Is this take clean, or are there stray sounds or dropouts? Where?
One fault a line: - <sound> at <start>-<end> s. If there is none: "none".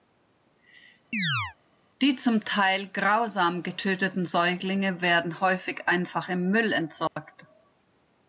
- chirp at 1.1-1.6 s
- dropout at 7.1-7.2 s